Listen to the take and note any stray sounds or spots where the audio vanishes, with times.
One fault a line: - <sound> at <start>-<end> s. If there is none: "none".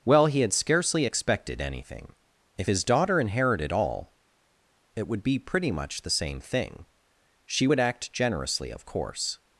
none